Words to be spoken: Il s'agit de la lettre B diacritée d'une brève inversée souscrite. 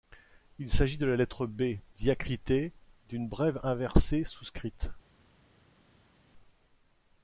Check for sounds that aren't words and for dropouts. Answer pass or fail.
pass